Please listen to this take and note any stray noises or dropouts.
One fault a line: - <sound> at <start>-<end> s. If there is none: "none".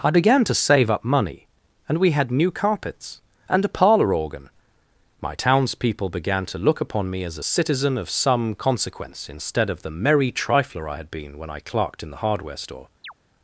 - chirp at 13.0-13.1 s